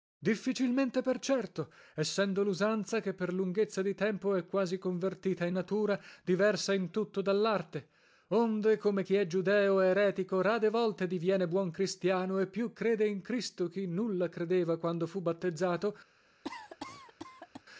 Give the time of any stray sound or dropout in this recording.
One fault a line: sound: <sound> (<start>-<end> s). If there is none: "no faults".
sound: cough (16.4-17.6 s)